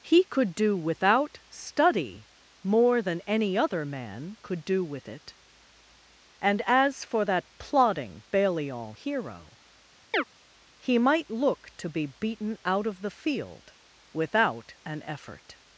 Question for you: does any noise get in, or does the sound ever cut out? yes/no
yes